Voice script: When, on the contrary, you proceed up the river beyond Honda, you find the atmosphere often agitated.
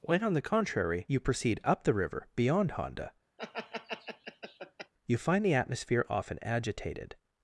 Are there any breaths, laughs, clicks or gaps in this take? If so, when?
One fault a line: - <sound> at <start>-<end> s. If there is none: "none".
- laugh at 3.4-4.9 s